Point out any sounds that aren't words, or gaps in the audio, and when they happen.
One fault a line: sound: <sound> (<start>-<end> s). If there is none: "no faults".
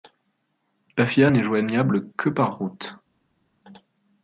no faults